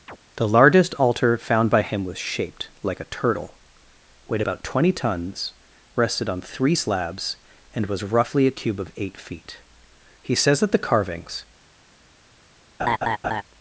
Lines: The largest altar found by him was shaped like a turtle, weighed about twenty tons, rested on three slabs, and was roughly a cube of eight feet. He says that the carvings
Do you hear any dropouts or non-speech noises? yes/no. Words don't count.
yes